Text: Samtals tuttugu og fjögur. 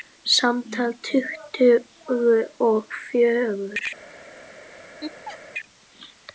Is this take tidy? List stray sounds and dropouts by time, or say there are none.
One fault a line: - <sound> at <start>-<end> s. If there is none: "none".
- laugh at 5.0-5.4 s